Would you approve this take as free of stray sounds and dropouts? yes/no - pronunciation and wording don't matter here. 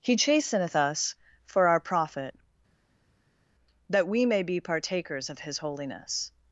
yes